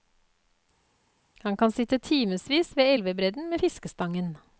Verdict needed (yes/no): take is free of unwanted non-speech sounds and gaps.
yes